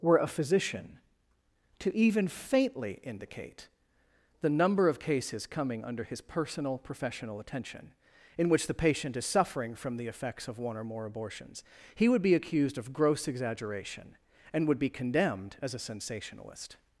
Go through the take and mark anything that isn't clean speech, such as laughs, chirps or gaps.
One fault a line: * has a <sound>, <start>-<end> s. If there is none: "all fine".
all fine